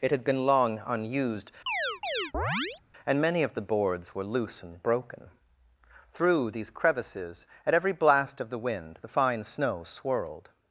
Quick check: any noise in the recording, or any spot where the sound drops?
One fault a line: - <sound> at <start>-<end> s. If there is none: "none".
- chirp at 1.7-2.8 s